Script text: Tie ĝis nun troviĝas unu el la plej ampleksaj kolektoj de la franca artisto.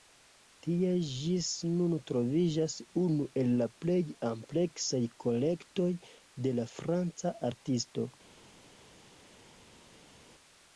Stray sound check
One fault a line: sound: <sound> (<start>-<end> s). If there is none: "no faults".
no faults